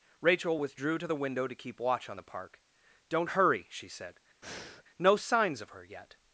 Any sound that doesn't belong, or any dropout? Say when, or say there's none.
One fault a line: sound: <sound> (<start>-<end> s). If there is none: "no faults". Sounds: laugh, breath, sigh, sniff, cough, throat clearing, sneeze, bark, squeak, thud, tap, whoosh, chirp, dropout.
sound: breath (4.4-4.8 s)